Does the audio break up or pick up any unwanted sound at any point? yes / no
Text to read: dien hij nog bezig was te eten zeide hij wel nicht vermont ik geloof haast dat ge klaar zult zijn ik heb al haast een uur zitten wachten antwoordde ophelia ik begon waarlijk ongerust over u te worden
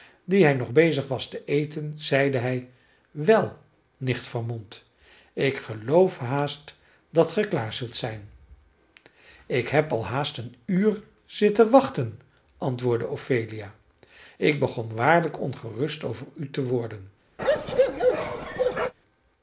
yes